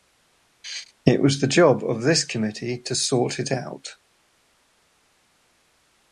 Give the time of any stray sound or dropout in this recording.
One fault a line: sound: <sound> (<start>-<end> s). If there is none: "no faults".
no faults